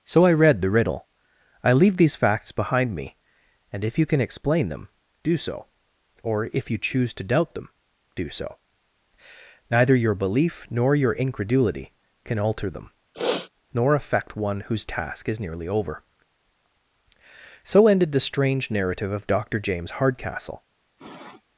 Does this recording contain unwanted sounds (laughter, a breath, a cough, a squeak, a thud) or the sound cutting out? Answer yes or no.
yes